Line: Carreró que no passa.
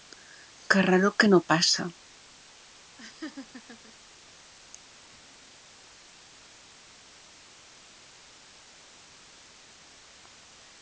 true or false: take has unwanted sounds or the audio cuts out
true